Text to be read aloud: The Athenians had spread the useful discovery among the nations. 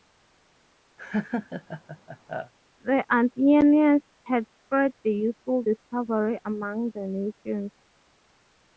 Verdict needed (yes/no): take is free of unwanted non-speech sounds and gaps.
no